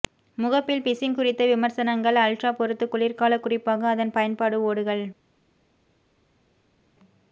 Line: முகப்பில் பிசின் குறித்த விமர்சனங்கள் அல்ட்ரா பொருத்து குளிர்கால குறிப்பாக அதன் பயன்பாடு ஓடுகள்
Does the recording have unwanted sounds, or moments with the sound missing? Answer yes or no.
no